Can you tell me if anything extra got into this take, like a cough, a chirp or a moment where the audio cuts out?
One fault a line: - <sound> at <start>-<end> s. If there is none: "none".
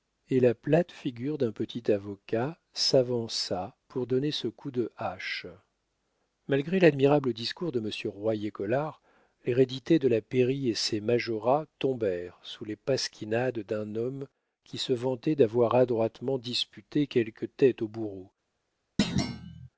- thud at 19.0-19.7 s